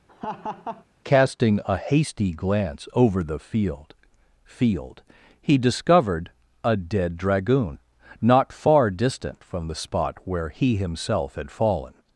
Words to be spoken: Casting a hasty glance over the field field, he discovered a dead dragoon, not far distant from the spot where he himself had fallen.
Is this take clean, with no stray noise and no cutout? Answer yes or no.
no